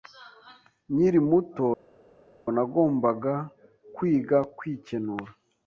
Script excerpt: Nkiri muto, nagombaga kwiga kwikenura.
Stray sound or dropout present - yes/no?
no